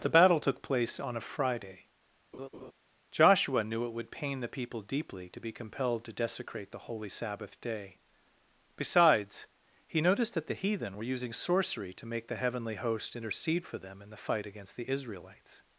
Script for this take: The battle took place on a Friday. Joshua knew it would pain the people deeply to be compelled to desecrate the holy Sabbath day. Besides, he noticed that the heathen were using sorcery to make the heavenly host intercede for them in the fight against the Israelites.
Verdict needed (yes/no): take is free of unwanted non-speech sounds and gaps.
no